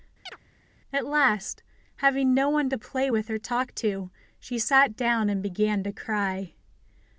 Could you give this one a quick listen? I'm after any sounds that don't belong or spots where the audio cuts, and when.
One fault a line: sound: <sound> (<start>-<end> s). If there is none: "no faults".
sound: chirp (0.3-0.4 s)